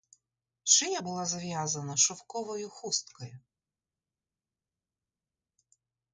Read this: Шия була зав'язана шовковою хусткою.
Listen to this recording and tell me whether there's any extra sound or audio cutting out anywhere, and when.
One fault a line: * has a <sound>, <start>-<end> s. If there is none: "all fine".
all fine